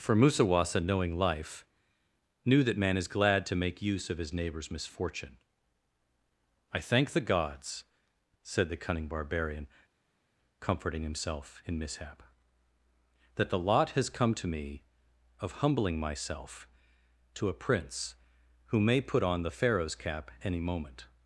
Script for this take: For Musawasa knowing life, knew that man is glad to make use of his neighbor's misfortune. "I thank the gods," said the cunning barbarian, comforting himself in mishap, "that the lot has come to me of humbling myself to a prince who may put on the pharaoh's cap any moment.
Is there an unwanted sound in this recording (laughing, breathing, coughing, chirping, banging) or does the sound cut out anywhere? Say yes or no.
no